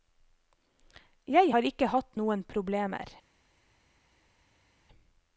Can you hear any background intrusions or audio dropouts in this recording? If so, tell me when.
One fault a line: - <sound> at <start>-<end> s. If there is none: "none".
none